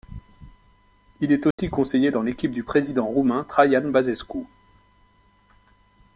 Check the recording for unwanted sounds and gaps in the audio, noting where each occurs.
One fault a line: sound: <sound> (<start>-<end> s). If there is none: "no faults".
sound: dropout (1.5-1.6 s)